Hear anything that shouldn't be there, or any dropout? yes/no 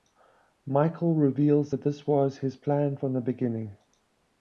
no